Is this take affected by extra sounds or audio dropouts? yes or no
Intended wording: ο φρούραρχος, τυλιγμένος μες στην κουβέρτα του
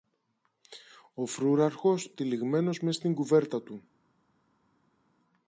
no